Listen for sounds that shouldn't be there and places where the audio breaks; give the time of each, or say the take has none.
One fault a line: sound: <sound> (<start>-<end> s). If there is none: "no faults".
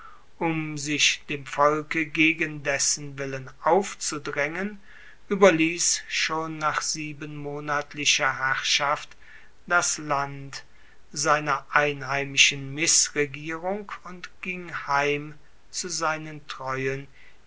no faults